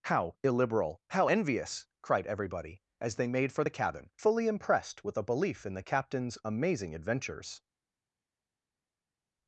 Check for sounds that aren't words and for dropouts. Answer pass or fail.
pass